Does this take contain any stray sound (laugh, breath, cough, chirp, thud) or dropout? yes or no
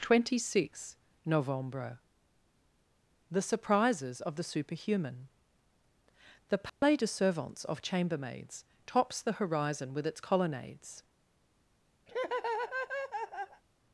yes